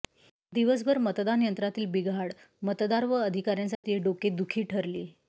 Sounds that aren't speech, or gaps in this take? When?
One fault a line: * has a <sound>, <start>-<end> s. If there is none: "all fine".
* has a dropout, 3.7-3.8 s